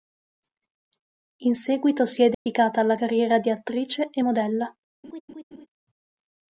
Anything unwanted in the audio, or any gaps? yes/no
yes